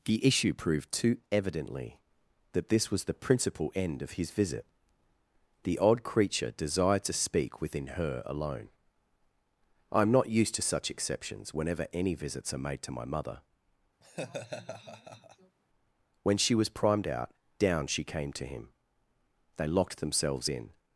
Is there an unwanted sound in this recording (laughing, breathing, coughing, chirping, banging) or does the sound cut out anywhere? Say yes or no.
yes